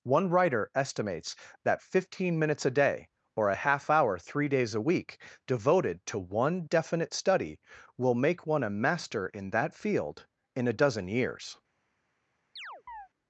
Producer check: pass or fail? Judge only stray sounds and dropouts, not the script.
fail